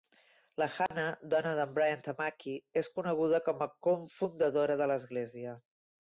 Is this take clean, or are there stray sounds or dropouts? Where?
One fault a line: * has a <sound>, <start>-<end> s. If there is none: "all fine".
* has a dropout, 0.9-0.9 s